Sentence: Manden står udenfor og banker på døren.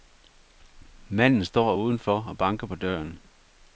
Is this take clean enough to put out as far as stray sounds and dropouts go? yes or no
yes